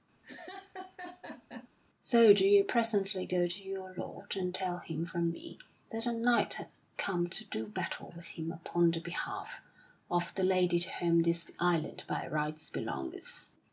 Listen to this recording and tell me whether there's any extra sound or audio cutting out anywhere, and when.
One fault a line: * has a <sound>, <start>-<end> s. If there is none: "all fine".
* has a laugh, 0.2-1.7 s